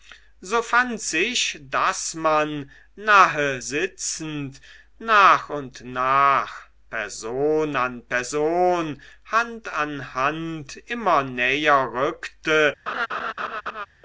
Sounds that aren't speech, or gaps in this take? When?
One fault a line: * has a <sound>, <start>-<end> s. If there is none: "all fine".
* has a laugh, 12.9-13.9 s